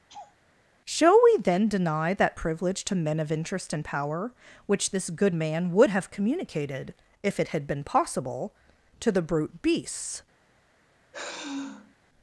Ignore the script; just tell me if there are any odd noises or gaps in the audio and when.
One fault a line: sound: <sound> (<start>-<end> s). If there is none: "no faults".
sound: laugh (0.1-0.4 s)
sound: sigh (11.1-11.9 s)